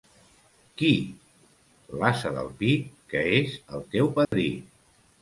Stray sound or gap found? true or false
true